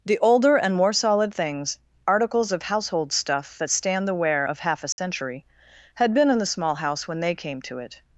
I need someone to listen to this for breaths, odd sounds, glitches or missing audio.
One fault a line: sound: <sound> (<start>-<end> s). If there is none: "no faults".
sound: dropout (4.9-5.0 s)